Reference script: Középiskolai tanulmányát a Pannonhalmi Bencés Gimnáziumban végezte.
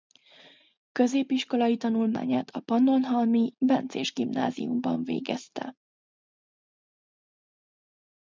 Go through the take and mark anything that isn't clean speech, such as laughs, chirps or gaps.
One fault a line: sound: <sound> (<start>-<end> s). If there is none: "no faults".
no faults